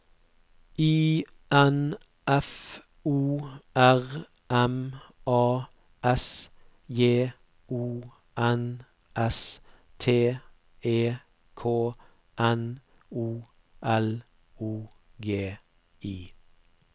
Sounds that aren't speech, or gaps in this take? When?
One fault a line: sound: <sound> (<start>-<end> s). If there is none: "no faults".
no faults